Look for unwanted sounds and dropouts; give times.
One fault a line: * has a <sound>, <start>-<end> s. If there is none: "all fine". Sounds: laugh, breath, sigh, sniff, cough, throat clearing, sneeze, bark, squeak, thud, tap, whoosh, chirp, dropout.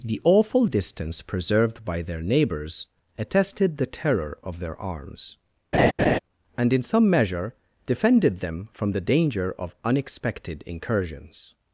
* has a laugh, 5.7-6.2 s